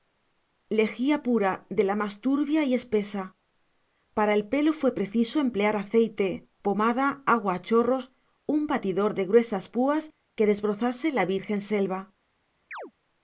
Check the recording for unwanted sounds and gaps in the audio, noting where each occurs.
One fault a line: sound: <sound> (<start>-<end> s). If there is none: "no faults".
sound: chirp (12.7-12.9 s)